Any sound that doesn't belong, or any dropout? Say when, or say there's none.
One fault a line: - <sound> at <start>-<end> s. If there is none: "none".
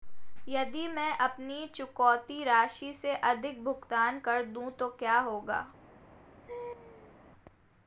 - laugh at 6.5-7.2 s